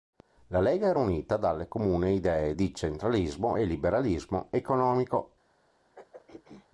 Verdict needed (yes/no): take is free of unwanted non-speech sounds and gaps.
no